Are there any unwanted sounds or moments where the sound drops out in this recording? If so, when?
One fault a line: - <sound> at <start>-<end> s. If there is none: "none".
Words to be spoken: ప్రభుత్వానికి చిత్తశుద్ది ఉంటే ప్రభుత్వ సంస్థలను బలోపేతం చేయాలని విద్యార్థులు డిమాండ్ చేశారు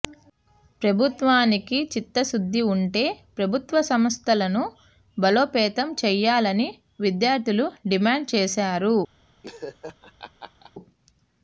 - laugh at 9.4-10.7 s